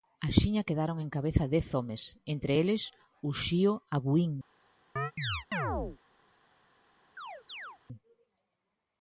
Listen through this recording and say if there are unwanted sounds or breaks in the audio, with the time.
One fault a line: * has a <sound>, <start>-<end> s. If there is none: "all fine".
* has a chirp, 5.0-6.0 s
* has a chirp, 7.2-7.8 s